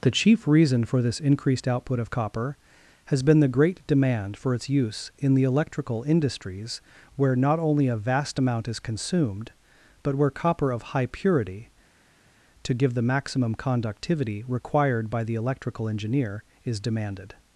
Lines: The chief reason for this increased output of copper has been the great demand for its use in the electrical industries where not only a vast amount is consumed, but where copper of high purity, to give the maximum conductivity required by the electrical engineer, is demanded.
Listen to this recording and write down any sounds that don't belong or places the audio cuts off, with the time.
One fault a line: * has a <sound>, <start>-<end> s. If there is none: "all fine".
all fine